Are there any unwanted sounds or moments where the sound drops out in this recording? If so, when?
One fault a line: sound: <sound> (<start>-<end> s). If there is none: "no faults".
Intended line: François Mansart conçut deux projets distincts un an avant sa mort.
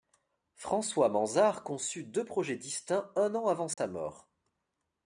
sound: dropout (3.7-3.8 s)